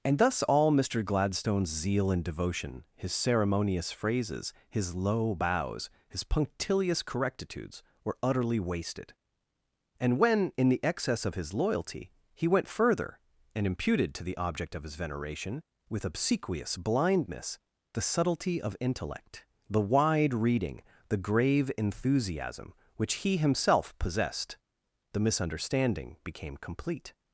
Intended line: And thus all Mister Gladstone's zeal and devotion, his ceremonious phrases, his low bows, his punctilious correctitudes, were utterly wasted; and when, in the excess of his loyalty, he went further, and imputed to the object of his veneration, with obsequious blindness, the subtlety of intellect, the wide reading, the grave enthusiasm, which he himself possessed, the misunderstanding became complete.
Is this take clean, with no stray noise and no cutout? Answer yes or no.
yes